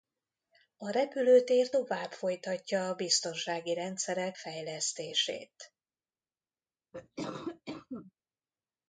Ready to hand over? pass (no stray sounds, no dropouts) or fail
fail